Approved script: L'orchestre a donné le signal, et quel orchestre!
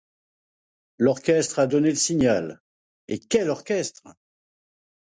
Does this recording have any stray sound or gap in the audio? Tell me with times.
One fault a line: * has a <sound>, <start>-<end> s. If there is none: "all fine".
all fine